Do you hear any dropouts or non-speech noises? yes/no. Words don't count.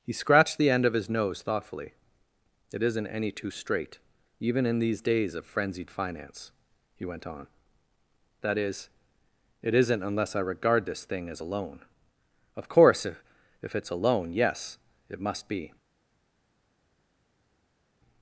no